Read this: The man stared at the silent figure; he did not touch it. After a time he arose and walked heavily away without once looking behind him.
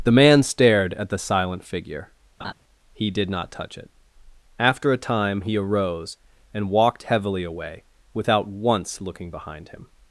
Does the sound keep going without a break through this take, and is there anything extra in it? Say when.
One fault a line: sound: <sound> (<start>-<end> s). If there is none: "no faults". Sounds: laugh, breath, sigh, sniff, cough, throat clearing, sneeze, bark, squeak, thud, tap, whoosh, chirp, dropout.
sound: laugh (2.4-2.5 s)